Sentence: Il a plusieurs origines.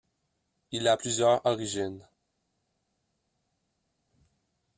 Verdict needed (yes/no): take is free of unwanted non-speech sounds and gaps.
yes